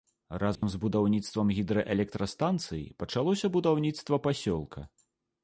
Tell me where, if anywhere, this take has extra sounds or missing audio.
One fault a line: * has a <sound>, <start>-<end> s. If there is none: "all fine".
* has a dropout, 0.6-0.6 s